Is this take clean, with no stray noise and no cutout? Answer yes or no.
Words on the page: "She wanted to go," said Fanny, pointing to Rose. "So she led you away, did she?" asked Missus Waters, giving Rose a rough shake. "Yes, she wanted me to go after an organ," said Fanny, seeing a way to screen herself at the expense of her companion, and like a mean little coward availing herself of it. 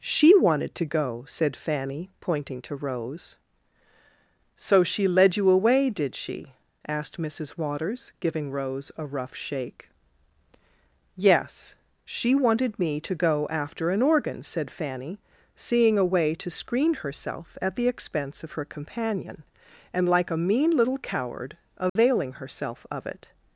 no